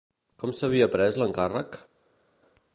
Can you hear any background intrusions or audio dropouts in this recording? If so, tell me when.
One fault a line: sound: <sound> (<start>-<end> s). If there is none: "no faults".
no faults